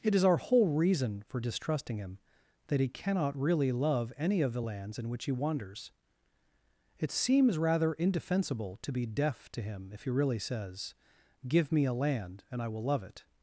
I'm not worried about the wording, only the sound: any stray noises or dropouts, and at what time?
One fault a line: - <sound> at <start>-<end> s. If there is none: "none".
none